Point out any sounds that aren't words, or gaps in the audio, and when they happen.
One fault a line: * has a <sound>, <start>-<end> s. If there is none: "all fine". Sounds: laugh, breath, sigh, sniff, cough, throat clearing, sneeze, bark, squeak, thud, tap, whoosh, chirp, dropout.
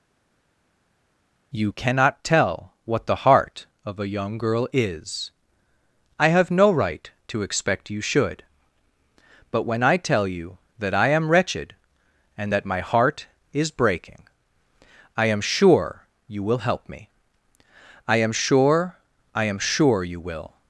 all fine